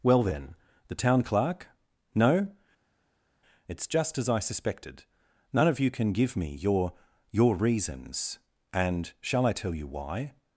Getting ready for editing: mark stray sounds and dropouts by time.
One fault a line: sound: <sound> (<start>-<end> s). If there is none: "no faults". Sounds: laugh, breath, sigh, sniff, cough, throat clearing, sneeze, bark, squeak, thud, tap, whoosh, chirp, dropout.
no faults